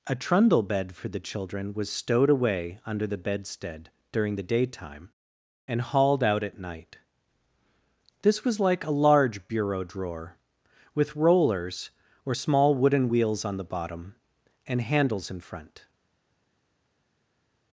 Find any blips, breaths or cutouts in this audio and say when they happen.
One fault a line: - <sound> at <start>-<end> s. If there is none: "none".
none